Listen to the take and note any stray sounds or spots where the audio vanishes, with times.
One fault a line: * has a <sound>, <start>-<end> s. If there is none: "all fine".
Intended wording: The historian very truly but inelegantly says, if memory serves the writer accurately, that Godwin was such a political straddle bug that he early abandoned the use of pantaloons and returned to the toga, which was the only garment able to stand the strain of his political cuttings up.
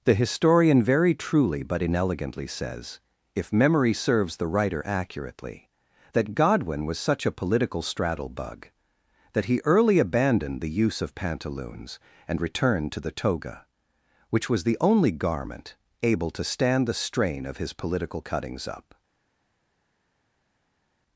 all fine